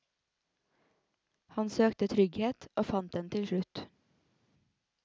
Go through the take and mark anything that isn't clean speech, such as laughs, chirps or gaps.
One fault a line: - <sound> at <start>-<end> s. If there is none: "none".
none